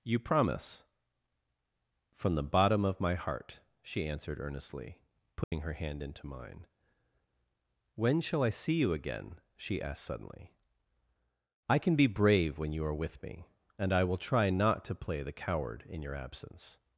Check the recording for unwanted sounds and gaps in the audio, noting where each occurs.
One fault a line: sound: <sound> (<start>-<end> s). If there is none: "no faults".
sound: dropout (5.4-5.5 s)